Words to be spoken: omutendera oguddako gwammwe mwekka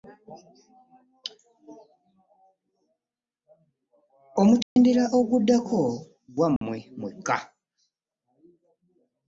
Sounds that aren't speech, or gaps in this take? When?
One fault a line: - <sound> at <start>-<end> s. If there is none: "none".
- dropout at 4.6-4.8 s
- dropout at 6.6-6.6 s